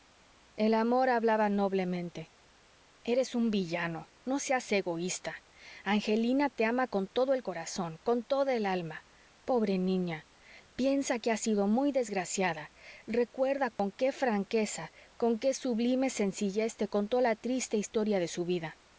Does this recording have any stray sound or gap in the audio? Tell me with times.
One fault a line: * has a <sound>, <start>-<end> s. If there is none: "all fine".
* has a dropout, 13.7-13.8 s